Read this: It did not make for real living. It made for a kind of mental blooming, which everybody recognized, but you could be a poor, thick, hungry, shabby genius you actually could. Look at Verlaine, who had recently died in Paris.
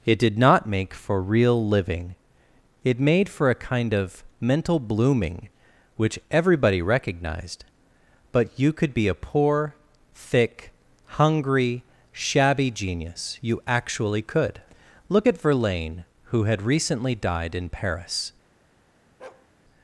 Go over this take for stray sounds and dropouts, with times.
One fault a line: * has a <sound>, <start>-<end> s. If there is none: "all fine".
* has a bark, 19.2-19.5 s